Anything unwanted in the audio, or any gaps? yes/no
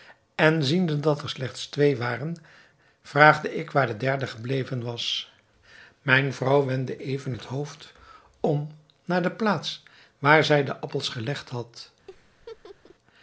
yes